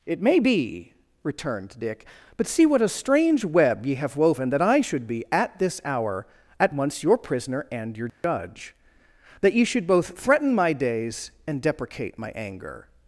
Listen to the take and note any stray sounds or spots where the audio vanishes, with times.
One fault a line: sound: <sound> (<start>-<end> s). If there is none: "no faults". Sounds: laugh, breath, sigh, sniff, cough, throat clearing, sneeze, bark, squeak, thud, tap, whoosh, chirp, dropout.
sound: dropout (8.1-8.2 s)